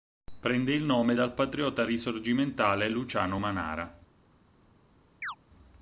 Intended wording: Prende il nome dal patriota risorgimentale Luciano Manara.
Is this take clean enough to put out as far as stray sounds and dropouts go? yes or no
no